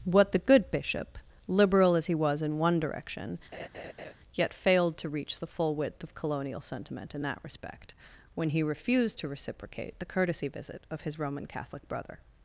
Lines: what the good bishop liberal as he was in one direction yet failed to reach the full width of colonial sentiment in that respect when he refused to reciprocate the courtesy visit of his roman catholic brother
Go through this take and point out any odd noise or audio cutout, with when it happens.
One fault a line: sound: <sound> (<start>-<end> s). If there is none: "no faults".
sound: laugh (3.5-4.1 s)